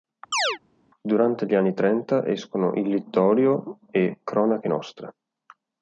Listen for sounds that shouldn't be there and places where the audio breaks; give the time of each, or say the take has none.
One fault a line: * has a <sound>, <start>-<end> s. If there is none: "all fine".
* has a chirp, 0.3-0.6 s